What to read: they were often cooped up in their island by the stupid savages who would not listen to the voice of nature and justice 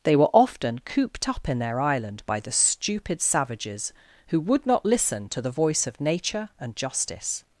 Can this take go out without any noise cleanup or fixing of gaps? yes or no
yes